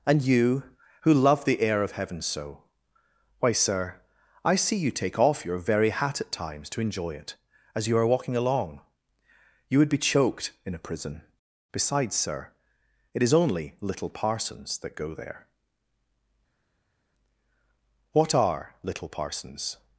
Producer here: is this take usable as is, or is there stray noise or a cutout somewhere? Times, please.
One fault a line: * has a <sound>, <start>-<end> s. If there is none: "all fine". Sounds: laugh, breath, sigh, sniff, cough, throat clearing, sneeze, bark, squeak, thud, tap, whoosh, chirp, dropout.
all fine